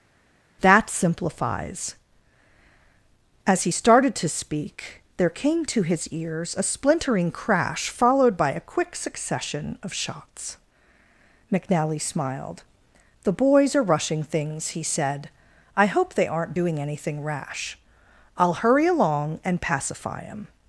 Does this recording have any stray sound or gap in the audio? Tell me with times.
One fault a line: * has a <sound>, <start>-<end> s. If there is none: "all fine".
all fine